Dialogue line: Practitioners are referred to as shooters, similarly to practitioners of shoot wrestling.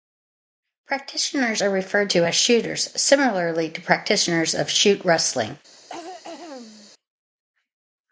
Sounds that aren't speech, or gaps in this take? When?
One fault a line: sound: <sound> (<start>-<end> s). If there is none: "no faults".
sound: throat clearing (5.7-6.9 s)